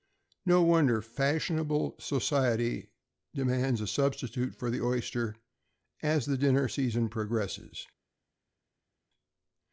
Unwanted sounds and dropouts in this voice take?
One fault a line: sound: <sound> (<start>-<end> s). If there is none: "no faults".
no faults